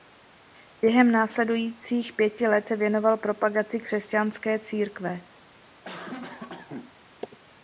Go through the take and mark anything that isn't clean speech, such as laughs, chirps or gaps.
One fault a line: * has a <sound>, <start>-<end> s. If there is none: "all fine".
* has a cough, 5.8-6.9 s